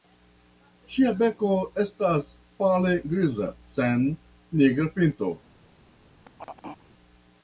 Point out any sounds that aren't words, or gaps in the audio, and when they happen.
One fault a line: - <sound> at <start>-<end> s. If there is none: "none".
- throat clearing at 6.2-6.9 s